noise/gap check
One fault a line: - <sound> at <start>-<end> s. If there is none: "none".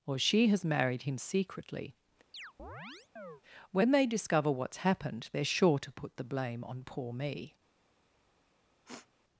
- chirp at 2.3-3.4 s
- sniff at 8.8-9.1 s